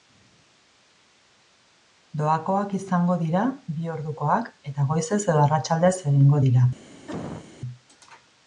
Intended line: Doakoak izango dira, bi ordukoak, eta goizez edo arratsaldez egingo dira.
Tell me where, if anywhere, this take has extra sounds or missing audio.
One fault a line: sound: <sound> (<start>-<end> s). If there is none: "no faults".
sound: cough (7.1-7.5 s)